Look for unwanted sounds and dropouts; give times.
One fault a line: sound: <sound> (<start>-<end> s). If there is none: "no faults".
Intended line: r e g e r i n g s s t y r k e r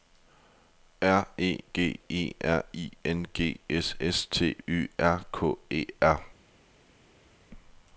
no faults